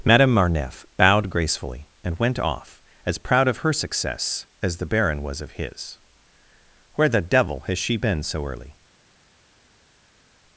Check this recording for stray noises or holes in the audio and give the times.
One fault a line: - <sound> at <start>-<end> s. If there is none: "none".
none